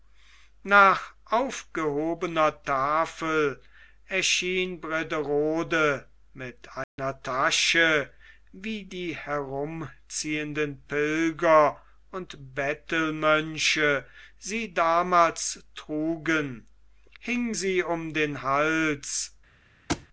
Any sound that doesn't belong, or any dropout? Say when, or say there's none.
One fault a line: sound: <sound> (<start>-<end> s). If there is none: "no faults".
sound: dropout (6.8-7.0 s)
sound: thud (19.9-20.1 s)